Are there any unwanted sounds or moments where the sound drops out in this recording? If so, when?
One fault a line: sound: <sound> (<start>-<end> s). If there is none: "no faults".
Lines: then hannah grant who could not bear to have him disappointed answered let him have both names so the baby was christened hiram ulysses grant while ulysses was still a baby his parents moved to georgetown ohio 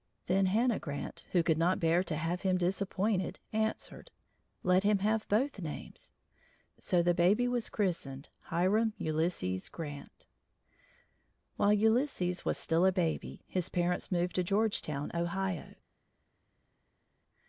no faults